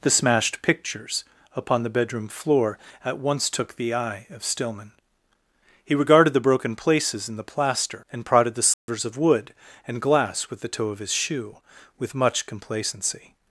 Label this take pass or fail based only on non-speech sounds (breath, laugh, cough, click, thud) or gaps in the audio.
fail